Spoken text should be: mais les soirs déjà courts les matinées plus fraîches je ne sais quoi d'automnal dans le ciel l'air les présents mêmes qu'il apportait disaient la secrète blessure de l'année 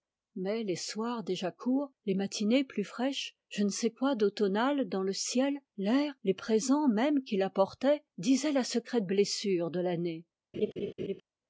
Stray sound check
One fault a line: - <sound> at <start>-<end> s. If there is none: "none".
- laugh at 10.5-11.2 s